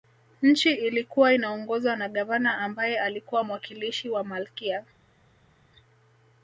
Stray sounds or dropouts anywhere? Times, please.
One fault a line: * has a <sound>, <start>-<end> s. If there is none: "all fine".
all fine